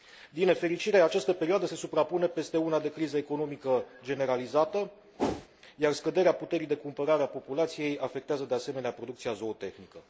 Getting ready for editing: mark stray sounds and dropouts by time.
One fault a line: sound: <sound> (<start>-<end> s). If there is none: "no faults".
sound: whoosh (5.2-5.5 s)